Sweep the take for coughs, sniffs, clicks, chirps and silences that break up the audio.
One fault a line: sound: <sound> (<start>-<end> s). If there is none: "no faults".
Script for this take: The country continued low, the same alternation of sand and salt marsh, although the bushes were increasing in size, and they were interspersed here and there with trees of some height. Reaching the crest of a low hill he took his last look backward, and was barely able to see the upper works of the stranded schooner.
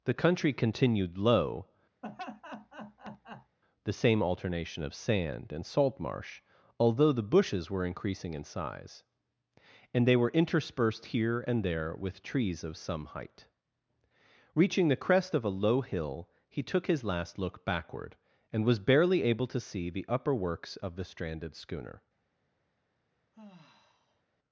sound: laugh (2.0-3.6 s)
sound: sigh (23.3-24.2 s)